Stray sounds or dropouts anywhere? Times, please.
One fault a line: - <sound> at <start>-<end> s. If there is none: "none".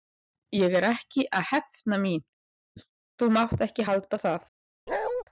- bark at 4.9-5.2 s